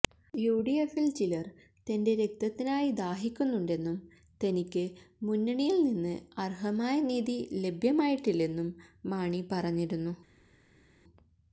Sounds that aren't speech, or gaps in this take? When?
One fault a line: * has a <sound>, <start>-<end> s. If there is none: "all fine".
all fine